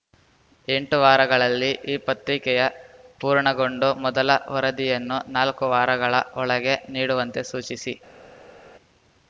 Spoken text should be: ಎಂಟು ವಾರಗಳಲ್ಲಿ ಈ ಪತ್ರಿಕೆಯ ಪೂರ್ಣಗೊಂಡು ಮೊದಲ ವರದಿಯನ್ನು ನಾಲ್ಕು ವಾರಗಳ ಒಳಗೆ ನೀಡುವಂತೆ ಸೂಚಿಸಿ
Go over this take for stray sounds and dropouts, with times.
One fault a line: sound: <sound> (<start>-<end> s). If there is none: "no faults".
no faults